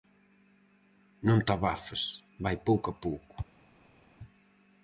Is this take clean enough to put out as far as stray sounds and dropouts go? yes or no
yes